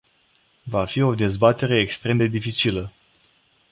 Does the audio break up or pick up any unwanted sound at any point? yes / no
no